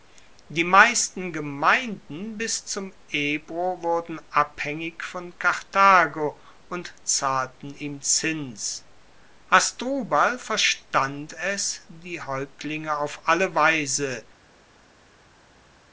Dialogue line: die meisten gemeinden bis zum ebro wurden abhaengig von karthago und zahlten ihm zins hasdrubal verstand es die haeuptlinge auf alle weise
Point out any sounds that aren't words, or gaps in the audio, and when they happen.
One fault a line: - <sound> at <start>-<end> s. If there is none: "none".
none